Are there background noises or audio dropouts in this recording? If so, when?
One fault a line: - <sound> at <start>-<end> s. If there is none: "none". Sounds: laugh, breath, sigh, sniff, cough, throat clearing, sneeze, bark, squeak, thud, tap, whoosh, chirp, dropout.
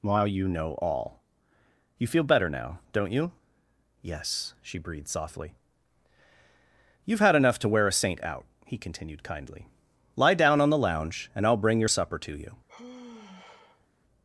- sigh at 12.7-13.9 s